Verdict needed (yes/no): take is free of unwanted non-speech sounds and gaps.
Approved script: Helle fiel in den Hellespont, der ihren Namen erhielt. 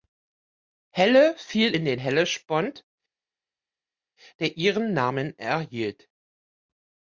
yes